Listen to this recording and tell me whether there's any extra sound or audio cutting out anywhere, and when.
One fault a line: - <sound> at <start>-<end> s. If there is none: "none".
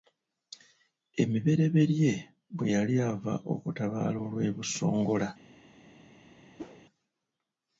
- whoosh at 6.6-6.8 s